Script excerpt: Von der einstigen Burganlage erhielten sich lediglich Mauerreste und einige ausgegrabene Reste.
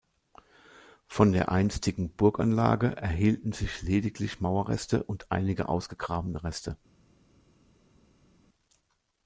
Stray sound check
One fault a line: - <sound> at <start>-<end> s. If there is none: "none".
none